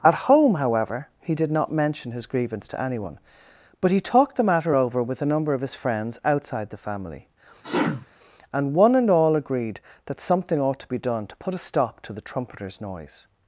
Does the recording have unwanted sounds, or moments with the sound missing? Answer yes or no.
yes